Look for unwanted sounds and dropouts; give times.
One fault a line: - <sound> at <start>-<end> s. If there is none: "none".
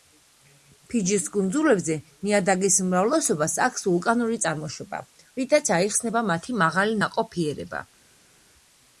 none